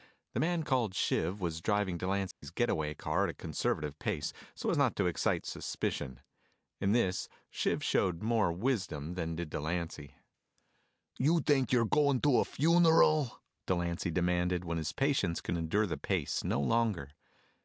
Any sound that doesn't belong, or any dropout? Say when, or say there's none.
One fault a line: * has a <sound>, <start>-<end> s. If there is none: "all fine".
* has a dropout, 2.3-2.4 s